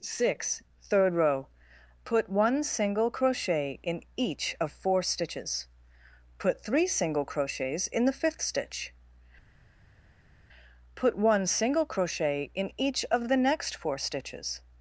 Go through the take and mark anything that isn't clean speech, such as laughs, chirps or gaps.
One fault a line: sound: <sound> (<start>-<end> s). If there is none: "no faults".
no faults